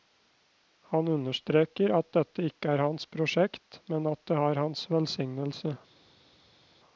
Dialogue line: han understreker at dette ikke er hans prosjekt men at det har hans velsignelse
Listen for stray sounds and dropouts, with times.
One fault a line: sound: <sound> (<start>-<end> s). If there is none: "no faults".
no faults